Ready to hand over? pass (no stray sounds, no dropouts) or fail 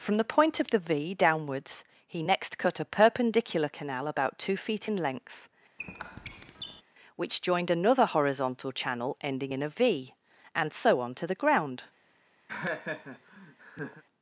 fail